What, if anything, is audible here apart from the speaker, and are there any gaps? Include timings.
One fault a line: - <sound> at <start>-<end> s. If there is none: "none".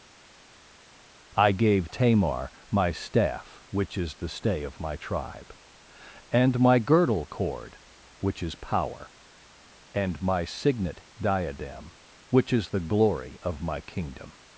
none